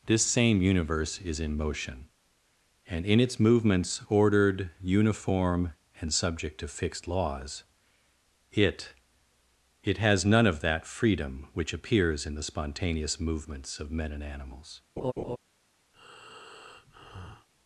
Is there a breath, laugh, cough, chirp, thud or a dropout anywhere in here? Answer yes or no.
yes